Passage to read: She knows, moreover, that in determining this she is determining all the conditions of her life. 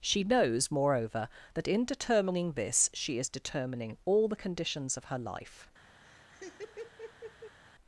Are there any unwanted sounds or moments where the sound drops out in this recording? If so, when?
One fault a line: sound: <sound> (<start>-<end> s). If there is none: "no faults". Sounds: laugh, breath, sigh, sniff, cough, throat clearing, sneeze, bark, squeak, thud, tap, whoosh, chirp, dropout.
sound: laugh (6.0-7.6 s)